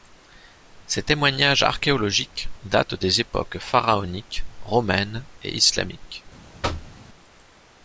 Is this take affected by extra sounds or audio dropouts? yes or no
yes